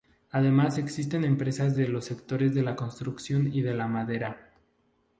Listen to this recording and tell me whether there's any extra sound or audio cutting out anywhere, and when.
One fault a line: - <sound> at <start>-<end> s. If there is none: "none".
none